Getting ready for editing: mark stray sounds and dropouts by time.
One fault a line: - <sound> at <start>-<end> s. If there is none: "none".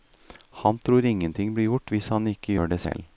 none